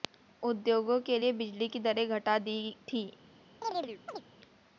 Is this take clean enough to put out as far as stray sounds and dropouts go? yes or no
no